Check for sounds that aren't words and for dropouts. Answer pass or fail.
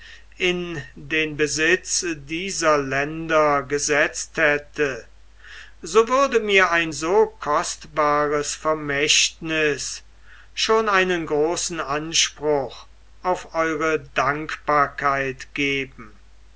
pass